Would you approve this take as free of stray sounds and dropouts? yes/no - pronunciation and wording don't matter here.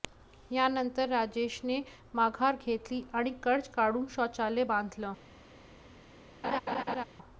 no